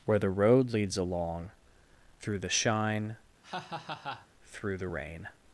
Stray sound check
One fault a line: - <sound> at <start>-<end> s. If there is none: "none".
- laugh at 3.4-4.3 s